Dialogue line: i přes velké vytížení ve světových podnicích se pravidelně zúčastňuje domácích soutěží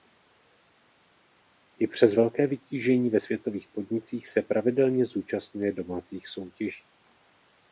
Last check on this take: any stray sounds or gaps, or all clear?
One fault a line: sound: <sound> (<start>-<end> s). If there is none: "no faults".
no faults